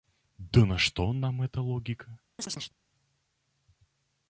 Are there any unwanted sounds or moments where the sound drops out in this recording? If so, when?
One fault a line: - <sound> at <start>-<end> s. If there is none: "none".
- chirp at 2.4-2.7 s